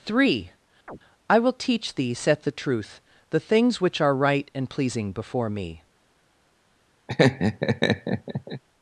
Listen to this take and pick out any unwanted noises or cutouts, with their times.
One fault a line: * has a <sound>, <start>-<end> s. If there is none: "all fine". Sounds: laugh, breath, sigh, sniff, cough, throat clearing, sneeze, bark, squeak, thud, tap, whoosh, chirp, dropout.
* has a chirp, 0.9-1.0 s
* has a laugh, 7.1-8.6 s